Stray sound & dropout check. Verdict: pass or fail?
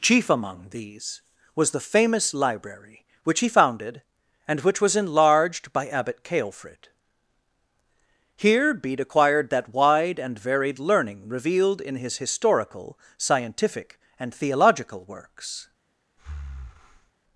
fail